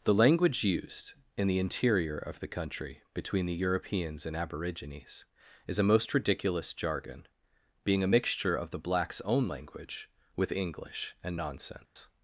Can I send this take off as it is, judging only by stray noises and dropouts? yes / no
no